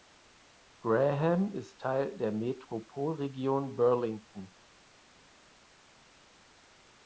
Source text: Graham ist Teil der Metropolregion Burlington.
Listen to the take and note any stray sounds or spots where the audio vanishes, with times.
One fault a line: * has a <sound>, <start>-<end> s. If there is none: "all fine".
all fine